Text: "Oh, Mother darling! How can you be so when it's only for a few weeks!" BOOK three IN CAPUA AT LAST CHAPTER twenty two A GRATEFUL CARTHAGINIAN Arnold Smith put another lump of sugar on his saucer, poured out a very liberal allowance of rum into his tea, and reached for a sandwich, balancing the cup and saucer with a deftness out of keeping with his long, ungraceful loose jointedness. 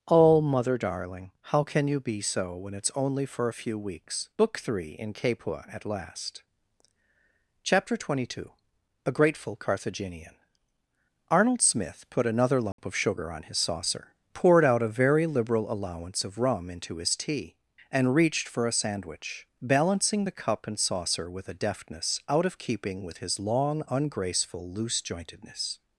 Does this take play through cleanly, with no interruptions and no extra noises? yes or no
no